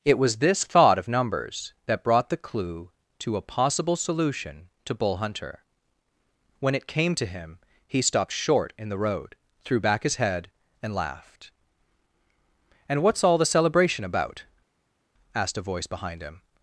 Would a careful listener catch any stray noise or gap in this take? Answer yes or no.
no